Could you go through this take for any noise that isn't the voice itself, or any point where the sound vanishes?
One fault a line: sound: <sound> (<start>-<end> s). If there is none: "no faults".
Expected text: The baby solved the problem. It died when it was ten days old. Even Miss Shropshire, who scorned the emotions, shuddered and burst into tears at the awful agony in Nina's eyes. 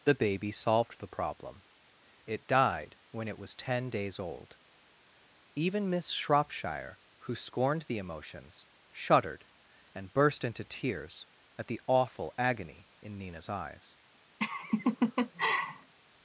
sound: laugh (14.4-15.9 s)